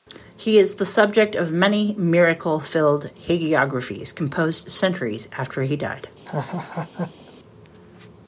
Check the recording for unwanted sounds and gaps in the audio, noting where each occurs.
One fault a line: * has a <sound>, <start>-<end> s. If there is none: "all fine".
* has a laugh, 6.3-7.3 s